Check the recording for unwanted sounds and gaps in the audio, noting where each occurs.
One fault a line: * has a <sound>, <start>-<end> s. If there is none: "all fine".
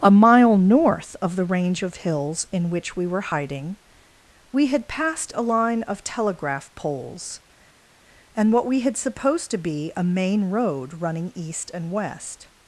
all fine